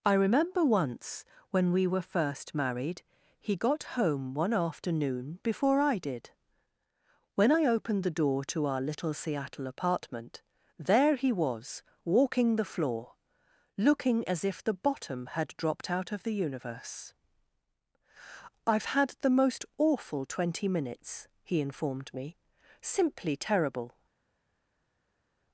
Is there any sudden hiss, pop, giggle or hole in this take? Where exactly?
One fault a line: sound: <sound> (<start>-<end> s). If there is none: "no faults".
no faults